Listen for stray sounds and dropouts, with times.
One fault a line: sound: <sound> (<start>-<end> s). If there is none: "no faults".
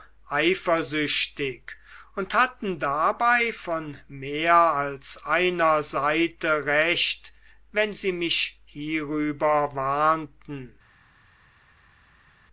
no faults